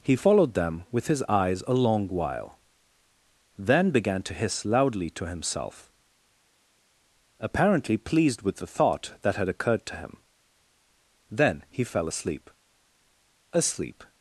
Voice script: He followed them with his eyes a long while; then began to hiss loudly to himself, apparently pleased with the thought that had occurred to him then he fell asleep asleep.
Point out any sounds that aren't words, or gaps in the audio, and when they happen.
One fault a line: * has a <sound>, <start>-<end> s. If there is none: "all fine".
all fine